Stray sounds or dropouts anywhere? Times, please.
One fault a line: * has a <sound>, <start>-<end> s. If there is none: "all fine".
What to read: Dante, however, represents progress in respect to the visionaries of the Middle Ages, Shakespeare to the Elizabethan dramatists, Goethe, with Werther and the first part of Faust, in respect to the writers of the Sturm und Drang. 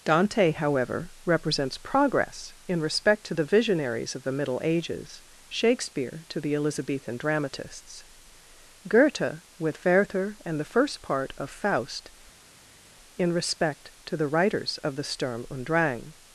all fine